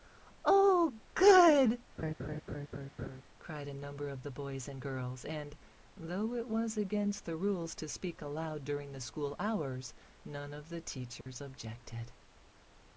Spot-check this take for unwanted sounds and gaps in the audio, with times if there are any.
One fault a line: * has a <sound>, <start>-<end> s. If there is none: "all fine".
* has a laugh, 2.0-3.2 s
* has a dropout, 11.2-11.3 s